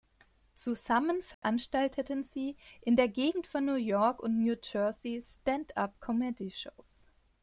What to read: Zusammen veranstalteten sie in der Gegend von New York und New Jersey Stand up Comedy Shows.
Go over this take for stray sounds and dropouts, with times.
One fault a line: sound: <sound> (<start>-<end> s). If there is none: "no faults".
sound: dropout (1.3-1.4 s)